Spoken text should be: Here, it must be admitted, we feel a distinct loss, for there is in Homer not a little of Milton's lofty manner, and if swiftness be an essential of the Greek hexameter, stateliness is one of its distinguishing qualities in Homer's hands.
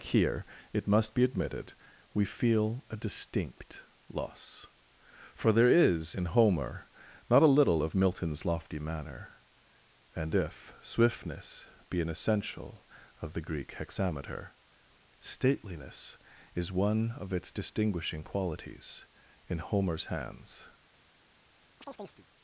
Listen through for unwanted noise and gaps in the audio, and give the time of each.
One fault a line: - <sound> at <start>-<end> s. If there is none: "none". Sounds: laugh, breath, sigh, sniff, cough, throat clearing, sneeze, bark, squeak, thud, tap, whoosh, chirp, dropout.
- chirp at 21.8-22.3 s